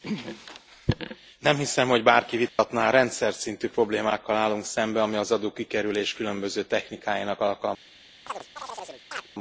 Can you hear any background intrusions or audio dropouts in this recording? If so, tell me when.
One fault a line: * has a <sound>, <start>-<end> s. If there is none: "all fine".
* has a dropout, 2.5-2.6 s
* has a chirp, 8.3-9.3 s